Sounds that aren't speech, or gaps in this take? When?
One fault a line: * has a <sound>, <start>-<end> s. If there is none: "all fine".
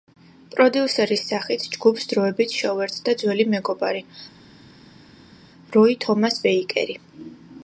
all fine